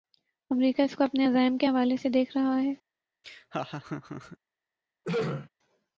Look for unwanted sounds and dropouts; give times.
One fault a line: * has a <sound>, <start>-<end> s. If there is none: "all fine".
* has a laugh, 3.2-4.4 s
* has a throat clearing, 5.0-5.5 s